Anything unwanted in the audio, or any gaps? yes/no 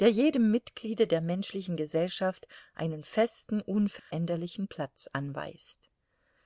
yes